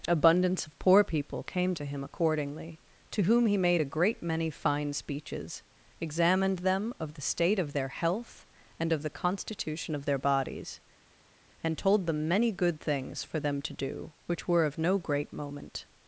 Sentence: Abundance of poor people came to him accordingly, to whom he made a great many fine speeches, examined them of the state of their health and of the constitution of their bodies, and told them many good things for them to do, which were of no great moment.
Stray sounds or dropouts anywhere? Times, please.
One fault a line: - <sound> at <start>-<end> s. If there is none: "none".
none